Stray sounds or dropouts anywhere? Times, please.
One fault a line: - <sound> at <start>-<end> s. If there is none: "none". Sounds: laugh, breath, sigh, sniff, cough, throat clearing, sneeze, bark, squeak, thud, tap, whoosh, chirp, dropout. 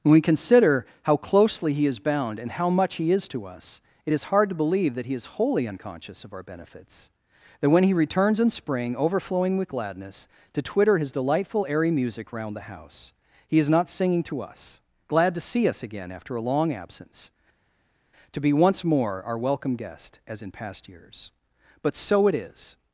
none